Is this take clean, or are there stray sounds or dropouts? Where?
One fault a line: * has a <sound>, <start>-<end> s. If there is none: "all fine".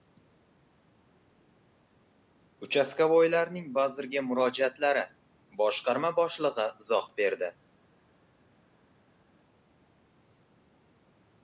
all fine